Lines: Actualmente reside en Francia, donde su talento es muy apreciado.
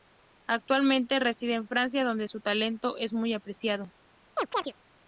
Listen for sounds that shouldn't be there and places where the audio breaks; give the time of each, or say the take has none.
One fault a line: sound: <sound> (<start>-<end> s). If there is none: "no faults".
sound: chirp (4.4-4.7 s)